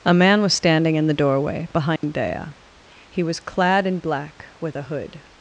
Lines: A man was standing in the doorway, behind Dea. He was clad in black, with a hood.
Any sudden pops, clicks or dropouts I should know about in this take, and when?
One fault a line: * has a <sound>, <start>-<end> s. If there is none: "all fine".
* has a dropout, 2.0-2.0 s